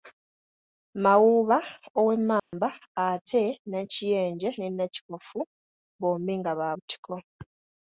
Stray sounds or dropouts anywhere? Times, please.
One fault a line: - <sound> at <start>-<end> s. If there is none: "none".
- dropout at 2.4-2.5 s